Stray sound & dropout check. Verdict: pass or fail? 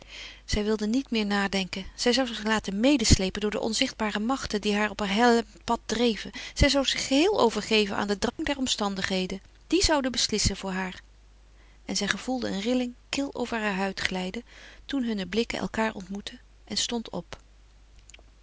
fail